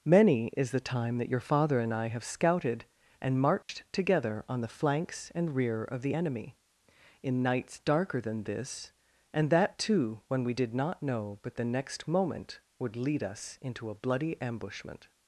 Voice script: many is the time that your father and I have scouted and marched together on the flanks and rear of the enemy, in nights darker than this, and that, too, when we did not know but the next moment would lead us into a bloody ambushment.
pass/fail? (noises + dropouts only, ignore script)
fail